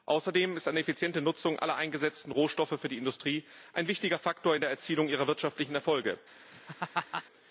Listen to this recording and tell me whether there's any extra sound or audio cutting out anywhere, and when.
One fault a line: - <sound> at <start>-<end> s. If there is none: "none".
- laugh at 6.5-7.2 s